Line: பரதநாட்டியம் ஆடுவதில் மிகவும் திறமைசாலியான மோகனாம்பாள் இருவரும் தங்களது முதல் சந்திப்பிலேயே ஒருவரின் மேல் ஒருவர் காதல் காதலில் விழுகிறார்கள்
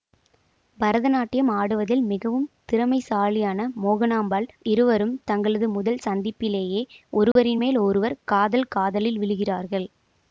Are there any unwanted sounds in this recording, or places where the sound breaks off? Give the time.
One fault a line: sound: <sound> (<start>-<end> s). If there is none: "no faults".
sound: dropout (7.3-7.4 s)